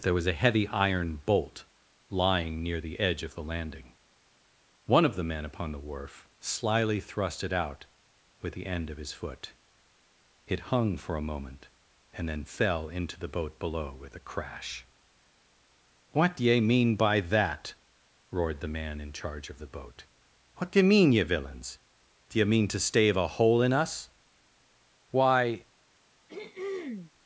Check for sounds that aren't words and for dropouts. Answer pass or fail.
fail